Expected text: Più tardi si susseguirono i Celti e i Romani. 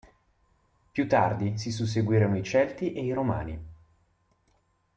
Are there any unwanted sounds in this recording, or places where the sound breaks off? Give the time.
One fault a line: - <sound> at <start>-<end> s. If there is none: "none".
none